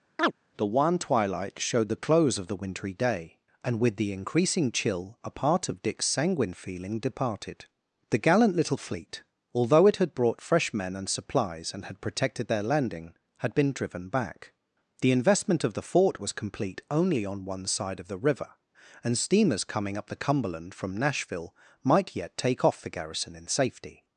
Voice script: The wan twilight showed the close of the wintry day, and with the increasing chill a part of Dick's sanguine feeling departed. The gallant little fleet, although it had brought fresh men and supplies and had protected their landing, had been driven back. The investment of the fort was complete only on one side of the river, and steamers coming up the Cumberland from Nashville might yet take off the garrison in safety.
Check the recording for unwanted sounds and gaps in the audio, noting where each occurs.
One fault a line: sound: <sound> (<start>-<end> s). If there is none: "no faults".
sound: chirp (0.2-0.3 s)